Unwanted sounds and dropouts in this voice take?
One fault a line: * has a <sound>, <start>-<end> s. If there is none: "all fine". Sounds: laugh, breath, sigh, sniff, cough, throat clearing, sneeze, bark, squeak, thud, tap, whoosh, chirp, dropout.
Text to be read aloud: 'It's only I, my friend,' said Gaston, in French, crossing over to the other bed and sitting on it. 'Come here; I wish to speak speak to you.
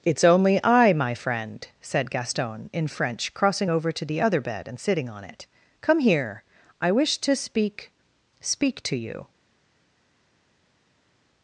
all fine